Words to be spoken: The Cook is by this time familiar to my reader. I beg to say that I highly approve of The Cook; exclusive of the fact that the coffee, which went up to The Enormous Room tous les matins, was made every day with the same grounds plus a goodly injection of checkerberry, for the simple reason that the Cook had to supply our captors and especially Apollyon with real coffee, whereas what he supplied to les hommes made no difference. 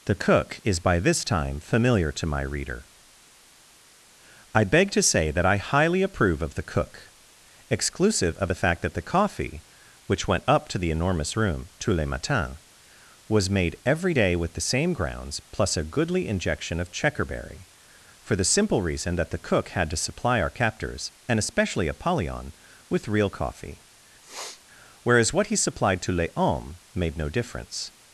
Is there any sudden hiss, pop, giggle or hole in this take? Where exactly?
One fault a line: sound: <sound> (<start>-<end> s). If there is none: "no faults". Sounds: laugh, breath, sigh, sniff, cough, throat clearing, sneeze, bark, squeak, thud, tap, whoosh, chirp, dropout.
sound: sniff (24.2-24.6 s)